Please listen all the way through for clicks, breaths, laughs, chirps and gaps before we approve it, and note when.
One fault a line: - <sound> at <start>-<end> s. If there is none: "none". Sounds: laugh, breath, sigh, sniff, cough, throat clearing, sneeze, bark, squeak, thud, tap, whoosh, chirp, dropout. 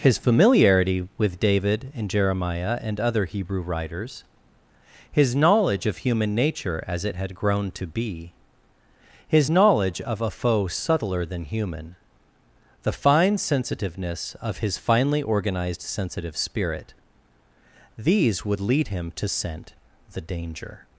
none